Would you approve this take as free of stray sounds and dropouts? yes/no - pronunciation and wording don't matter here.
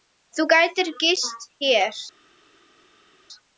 yes